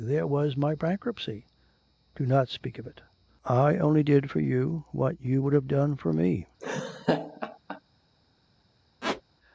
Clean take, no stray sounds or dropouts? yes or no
no